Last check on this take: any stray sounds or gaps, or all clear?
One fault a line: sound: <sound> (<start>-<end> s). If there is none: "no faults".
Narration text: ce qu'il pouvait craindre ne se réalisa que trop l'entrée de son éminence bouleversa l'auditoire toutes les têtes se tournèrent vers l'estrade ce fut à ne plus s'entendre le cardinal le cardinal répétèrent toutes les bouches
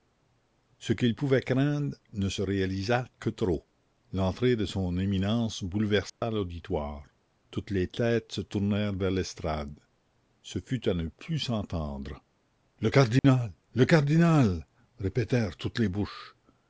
sound: dropout (6.1-6.2 s)
sound: dropout (13.2-13.2 s)